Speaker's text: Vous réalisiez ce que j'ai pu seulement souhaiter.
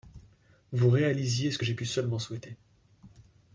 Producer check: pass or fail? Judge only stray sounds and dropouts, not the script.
pass